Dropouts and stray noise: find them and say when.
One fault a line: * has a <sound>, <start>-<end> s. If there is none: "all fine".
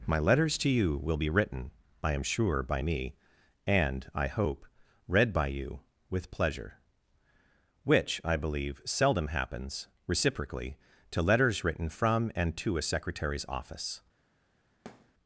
* has a thud, 14.9-15.1 s